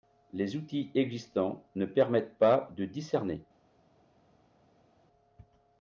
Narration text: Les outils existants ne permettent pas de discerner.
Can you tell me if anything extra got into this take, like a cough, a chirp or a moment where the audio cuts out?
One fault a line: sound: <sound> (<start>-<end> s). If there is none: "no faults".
no faults